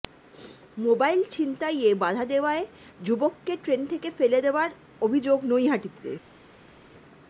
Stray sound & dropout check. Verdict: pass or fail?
pass